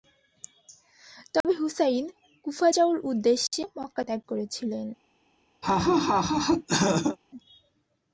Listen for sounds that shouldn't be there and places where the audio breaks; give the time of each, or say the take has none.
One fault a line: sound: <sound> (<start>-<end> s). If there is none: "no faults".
sound: dropout (1.4-1.4 s)
sound: laugh (5.6-7.2 s)